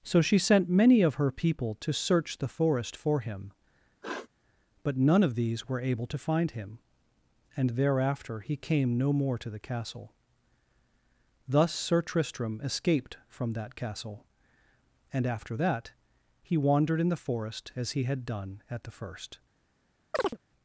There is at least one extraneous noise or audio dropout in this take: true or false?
true